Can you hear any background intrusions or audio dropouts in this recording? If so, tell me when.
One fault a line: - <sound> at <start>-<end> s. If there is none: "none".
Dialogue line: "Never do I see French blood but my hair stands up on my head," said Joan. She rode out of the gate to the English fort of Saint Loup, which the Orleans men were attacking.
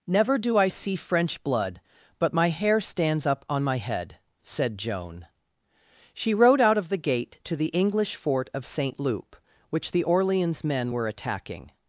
none